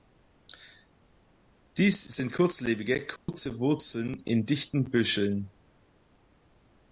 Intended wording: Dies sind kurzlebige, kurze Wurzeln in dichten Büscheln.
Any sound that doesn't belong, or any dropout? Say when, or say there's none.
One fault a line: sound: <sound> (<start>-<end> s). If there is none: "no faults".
sound: dropout (3.2-3.3 s)